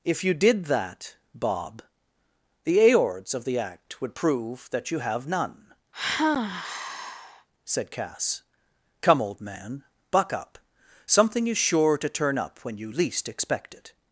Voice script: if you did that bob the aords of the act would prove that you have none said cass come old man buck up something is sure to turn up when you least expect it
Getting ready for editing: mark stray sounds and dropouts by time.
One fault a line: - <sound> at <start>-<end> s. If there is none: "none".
- sigh at 5.9-7.5 s